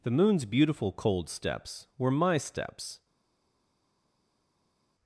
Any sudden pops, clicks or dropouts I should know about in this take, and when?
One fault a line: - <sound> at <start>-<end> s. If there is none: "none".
none